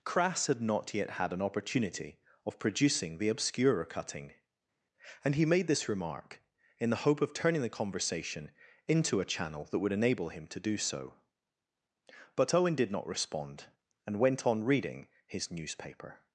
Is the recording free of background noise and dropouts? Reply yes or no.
yes